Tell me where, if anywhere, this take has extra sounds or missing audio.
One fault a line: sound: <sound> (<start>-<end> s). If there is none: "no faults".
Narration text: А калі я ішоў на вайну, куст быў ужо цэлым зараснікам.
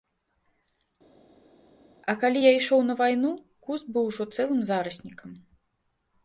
no faults